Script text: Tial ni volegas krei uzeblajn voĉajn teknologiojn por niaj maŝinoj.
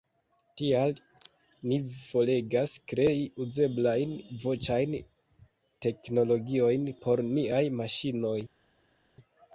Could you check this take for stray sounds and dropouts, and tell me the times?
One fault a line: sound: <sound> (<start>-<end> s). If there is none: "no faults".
no faults